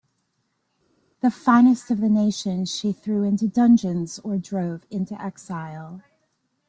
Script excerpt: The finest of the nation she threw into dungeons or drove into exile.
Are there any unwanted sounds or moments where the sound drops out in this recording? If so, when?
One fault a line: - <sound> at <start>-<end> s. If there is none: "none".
none